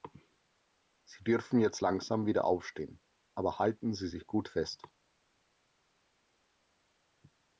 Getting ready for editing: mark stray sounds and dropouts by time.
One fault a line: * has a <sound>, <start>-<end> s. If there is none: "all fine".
all fine